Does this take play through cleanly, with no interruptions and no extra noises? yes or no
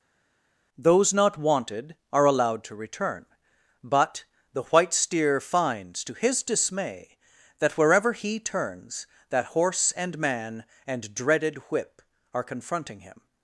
yes